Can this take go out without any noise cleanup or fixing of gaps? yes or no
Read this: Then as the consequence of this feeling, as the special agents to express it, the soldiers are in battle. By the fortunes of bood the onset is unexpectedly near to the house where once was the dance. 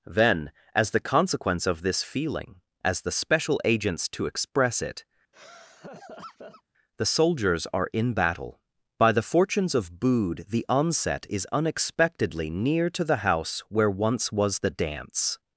no